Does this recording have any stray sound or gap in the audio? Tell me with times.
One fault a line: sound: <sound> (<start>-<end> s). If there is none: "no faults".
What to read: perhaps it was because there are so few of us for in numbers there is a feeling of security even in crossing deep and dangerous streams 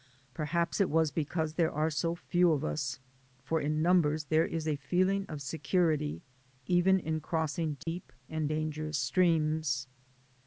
sound: dropout (7.8-7.9 s)